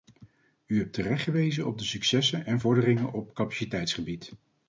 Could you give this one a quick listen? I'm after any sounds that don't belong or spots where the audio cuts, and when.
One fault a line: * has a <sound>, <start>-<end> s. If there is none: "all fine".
all fine